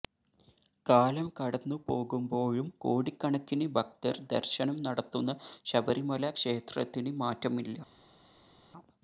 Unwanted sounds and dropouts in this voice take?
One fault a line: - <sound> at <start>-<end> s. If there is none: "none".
none